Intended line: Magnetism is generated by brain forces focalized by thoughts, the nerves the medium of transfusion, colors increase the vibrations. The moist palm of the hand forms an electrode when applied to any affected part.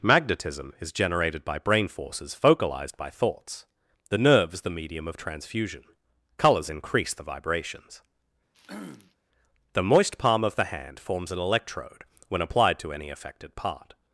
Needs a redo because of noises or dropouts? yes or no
yes